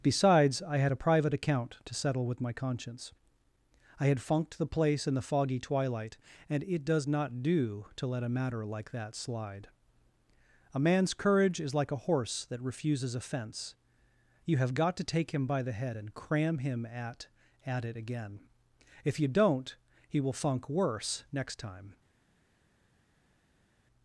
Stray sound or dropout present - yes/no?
no